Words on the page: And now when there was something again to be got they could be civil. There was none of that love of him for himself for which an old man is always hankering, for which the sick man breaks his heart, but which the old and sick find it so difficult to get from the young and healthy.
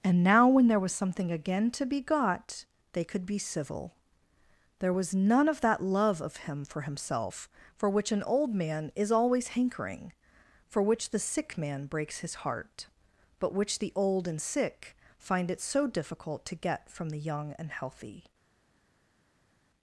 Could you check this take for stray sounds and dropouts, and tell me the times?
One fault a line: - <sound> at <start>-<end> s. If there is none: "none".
none